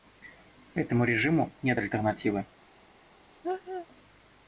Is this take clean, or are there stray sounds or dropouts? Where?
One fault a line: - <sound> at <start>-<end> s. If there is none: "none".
- laugh at 3.4-3.9 s